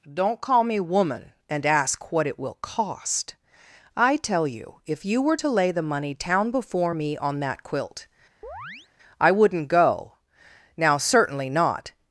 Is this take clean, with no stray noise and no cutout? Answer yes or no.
no